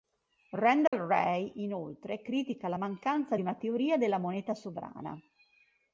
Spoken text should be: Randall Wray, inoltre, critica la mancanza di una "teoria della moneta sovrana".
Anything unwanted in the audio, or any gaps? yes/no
yes